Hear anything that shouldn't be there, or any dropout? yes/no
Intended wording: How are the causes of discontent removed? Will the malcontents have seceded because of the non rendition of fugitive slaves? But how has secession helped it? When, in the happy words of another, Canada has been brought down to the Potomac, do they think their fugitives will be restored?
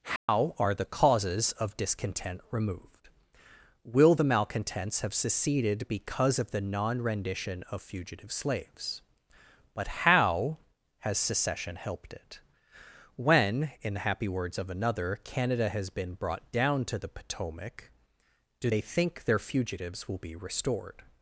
yes